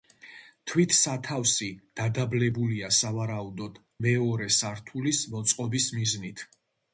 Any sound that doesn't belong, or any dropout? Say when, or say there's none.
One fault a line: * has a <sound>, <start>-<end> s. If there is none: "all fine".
all fine